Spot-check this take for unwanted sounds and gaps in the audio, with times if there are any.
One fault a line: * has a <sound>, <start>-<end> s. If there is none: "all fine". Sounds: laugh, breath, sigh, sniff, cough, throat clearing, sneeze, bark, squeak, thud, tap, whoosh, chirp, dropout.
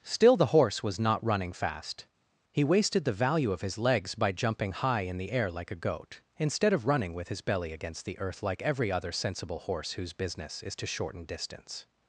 all fine